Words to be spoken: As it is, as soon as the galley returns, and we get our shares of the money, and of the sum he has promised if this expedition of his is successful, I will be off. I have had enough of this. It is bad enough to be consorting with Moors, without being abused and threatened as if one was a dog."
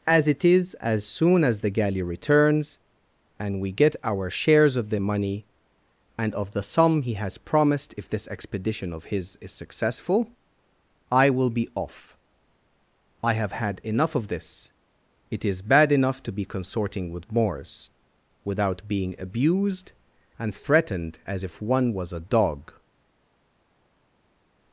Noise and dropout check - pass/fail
pass